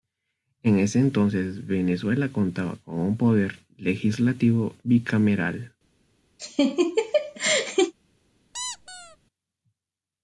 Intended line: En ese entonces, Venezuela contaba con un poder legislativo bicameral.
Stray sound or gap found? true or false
true